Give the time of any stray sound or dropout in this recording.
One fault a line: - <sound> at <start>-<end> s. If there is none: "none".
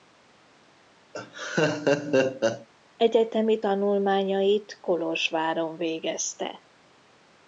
- laugh at 1.1-2.7 s